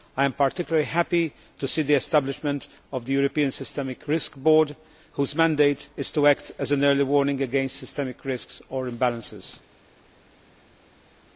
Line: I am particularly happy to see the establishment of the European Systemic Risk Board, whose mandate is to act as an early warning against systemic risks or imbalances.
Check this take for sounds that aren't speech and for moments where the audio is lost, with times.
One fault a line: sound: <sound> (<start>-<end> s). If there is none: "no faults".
no faults